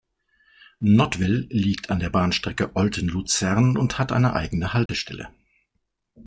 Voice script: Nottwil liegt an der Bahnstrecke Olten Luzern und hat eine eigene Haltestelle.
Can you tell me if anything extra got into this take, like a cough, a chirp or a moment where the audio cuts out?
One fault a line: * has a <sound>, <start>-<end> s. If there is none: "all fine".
* has a dropout, 4.9-4.9 s